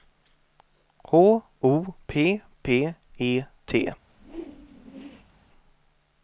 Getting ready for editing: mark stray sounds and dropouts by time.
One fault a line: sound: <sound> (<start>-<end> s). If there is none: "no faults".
sound: whoosh (4.1-5.5 s)